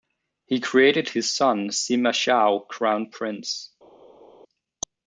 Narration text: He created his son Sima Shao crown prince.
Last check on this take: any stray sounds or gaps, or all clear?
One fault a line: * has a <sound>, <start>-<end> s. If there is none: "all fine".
all fine